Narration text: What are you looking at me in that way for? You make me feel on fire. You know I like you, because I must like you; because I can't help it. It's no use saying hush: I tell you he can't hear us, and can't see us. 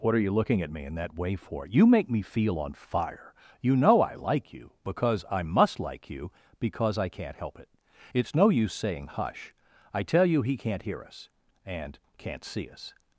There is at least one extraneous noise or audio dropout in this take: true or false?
false